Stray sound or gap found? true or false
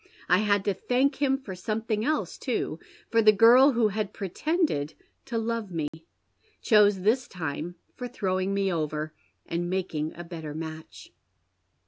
true